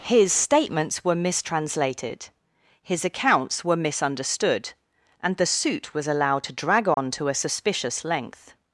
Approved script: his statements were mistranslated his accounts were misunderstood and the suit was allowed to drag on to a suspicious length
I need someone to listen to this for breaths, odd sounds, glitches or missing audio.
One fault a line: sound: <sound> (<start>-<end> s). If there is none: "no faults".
sound: dropout (6.9-7.0 s)